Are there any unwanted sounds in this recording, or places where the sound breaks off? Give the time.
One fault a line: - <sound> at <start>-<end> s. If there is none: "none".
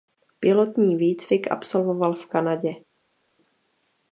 none